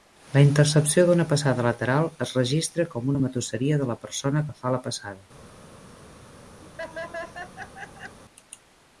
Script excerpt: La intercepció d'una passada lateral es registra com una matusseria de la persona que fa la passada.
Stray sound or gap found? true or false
true